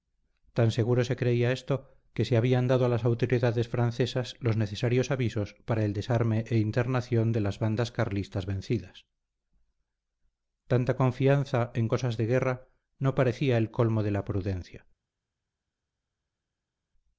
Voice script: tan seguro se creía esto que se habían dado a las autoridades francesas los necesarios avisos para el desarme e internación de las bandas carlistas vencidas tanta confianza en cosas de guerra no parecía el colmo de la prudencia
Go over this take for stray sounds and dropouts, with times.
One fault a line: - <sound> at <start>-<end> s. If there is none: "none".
none